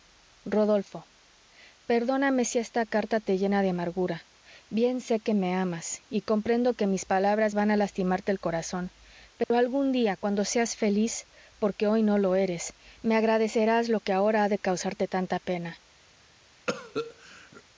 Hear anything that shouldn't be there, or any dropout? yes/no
yes